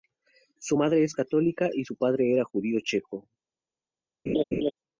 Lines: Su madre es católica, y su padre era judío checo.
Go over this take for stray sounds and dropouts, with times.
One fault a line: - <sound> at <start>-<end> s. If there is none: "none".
- laugh at 4.3-4.7 s